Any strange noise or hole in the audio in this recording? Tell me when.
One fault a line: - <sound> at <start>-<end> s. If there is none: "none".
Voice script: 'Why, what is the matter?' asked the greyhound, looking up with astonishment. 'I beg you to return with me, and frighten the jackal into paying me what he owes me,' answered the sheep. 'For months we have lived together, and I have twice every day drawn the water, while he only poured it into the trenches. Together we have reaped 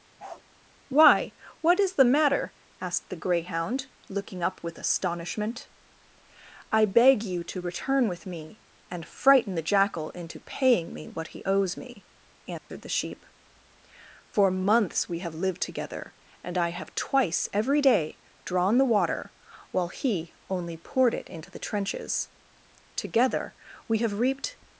- bark at 0.2-0.4 s
- dropout at 12.6-12.7 s